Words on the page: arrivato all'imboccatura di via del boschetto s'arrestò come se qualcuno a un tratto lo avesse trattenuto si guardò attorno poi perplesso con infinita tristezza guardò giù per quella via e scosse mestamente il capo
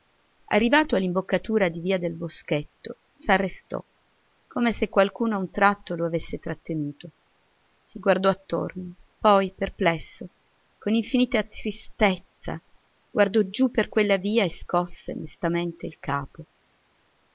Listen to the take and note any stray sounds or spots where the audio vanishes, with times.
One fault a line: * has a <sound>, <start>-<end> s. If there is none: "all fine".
all fine